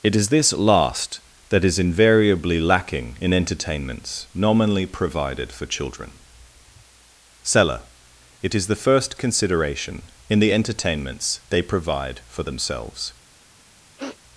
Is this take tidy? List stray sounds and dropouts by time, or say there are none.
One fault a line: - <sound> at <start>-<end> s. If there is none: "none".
- sniff at 14.0-14.2 s